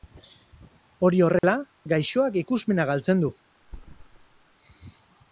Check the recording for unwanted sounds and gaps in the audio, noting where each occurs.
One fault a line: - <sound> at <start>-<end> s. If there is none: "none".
- dropout at 1.4-1.4 s
- thud at 3.6-4.6 s